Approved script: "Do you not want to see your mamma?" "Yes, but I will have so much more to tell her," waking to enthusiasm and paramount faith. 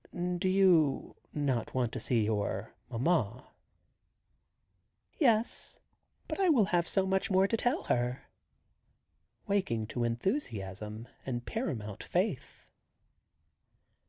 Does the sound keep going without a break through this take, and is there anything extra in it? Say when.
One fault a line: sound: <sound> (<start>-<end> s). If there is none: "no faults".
no faults